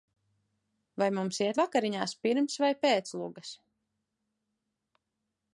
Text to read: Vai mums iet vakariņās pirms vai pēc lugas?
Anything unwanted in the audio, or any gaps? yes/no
no